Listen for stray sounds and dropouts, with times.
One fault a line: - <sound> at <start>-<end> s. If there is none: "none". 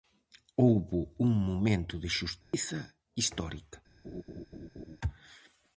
- dropout at 2.4-2.5 s
- laugh at 4.0-5.0 s